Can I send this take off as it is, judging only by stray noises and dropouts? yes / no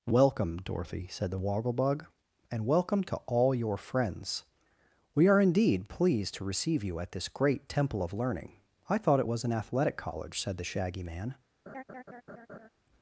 no